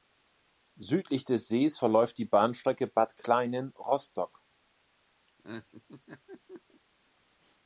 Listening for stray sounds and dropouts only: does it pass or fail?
fail